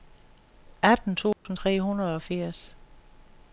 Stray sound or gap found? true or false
true